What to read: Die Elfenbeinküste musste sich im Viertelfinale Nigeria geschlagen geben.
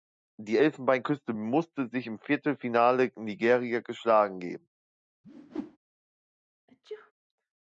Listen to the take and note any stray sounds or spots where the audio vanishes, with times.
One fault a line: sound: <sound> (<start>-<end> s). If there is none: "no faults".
sound: whoosh (5.2-5.8 s)
sound: sneeze (6.7-7.1 s)